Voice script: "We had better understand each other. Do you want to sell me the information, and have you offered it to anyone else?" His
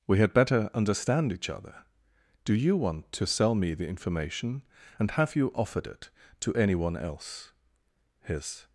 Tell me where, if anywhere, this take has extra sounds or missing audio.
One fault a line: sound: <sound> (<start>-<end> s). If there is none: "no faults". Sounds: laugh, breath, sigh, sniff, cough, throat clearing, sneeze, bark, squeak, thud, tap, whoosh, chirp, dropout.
no faults